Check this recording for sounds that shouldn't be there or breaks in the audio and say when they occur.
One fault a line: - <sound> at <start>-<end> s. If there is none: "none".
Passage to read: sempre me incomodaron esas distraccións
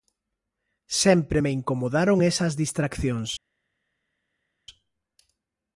none